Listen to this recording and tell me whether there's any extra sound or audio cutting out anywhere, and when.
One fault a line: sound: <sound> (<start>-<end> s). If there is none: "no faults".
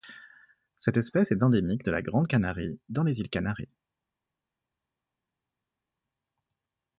no faults